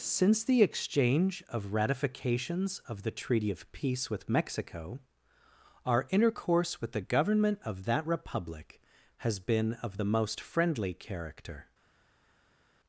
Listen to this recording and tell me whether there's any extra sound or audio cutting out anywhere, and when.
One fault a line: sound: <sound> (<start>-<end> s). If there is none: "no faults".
no faults